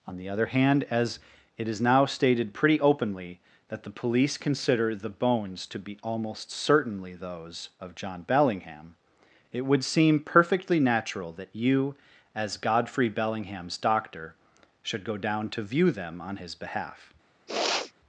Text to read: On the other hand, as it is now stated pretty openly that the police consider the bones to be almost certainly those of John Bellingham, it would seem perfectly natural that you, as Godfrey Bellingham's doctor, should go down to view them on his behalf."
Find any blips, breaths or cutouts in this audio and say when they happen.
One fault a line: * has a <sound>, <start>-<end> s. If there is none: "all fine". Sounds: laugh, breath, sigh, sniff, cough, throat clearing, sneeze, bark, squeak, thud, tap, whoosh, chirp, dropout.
* has a sniff, 17.5-17.9 s